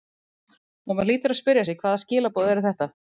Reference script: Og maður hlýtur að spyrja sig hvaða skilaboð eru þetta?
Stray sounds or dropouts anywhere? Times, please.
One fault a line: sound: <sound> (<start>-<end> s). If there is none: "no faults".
no faults